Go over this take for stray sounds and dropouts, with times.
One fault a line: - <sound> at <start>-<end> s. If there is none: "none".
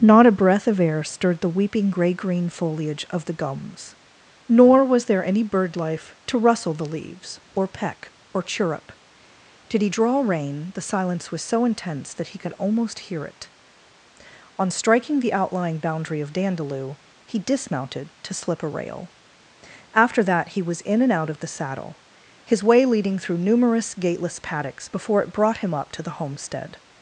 none